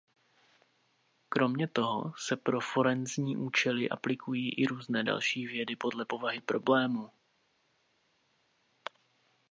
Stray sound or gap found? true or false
false